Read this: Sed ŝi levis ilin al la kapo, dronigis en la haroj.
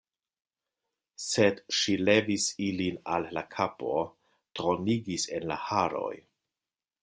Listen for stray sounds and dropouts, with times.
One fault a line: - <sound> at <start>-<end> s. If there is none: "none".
none